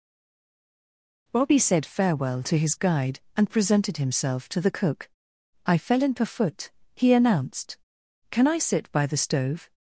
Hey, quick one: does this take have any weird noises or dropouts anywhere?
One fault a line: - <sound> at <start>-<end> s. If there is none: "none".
none